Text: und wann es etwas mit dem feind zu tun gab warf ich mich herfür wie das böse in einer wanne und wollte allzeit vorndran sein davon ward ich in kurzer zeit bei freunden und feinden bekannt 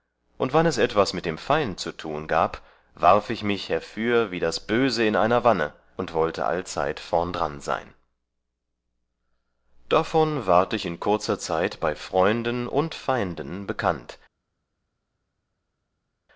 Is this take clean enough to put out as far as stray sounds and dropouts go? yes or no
yes